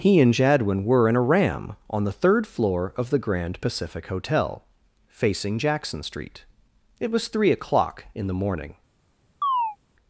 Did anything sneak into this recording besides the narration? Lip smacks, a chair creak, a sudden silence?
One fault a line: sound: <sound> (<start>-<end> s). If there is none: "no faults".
sound: chirp (9.4-9.8 s)